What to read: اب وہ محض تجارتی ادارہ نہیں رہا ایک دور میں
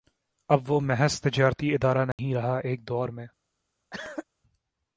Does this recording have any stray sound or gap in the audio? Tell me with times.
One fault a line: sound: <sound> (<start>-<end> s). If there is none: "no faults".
sound: dropout (2.1-2.2 s)
sound: cough (3.9-4.2 s)